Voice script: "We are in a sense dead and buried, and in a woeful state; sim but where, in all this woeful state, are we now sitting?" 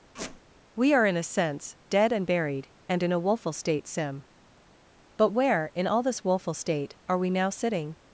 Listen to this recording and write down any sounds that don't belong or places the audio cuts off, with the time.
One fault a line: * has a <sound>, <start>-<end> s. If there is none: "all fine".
* has a squeak, 0.2-0.4 s